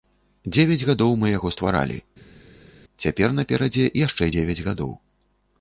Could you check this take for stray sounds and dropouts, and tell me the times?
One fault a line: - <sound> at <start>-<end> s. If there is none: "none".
none